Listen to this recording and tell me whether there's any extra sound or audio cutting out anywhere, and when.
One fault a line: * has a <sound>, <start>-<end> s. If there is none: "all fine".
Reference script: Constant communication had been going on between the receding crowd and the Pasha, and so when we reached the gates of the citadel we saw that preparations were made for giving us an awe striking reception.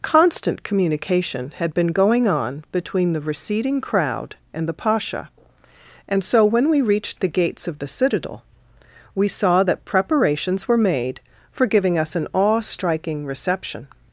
all fine